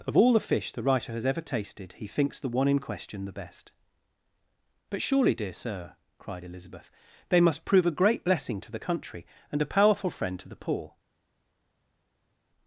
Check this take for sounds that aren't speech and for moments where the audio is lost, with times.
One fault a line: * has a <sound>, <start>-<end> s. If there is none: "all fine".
all fine